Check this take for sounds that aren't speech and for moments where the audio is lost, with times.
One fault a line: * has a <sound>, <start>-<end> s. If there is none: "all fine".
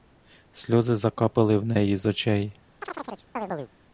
* has a chirp, 2.8-3.7 s